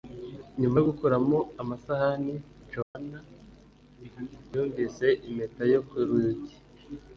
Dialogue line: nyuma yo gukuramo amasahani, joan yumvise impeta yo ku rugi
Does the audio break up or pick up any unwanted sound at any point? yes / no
yes